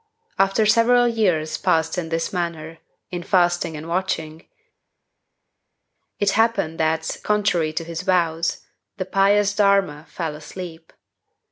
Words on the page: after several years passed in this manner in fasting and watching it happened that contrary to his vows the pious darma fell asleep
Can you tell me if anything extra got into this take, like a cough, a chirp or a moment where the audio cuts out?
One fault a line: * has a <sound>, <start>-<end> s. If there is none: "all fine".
all fine